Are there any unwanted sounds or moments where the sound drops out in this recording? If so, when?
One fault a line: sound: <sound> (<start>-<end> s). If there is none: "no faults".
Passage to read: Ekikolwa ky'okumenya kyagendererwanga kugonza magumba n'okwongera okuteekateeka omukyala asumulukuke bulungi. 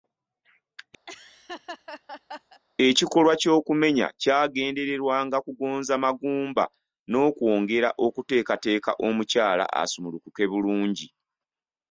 sound: laugh (1.1-2.6 s)